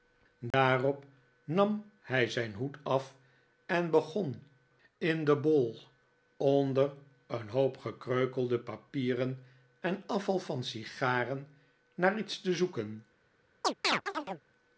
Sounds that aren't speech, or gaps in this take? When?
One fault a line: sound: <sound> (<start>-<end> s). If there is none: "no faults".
sound: dropout (0.5-0.5 s)
sound: chirp (13.6-14.4 s)